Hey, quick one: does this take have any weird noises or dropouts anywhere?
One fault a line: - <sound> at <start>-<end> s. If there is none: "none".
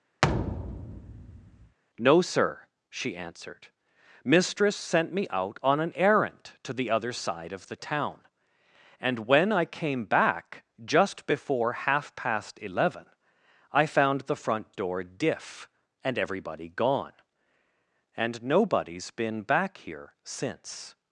- thud at 0.2-1.8 s